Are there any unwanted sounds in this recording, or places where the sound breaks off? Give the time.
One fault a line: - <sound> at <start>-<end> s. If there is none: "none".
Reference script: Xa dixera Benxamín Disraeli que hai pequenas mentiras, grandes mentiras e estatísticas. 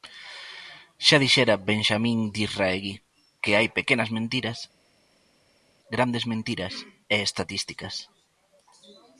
none